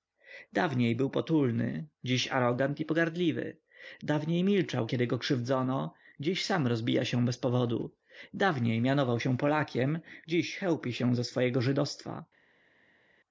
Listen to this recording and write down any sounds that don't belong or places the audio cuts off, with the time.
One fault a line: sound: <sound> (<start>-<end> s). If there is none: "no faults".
no faults